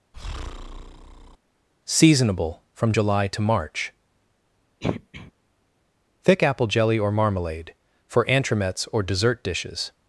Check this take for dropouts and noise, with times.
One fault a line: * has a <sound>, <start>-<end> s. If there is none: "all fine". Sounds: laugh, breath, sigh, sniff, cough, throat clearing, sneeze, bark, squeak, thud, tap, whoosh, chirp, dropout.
* has a breath, 0.1-1.4 s
* has a throat clearing, 4.8-5.3 s